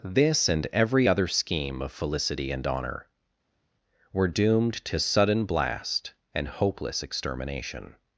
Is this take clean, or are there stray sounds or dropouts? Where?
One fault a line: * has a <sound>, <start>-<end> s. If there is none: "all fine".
all fine